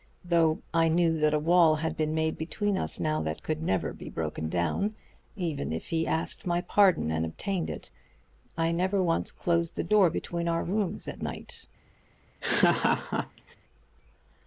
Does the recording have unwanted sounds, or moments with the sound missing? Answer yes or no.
yes